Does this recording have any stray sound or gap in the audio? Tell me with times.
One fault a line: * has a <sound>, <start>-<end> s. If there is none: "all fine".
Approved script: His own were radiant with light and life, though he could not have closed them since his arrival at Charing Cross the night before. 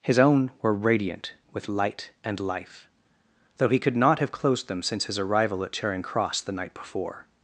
all fine